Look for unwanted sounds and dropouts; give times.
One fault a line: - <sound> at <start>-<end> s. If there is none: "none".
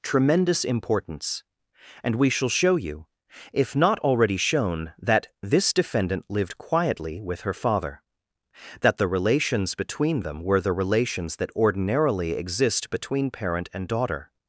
none